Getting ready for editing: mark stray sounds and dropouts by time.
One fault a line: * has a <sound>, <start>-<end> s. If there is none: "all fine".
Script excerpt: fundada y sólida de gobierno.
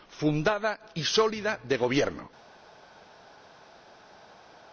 all fine